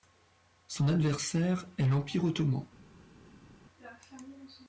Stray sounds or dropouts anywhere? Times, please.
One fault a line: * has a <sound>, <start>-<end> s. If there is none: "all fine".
all fine